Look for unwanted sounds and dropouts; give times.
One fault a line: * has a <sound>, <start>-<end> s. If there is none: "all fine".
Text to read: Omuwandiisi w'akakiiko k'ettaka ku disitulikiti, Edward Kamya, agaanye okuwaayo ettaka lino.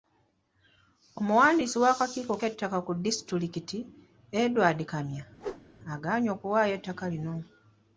* has a whoosh, 5.4-5.7 s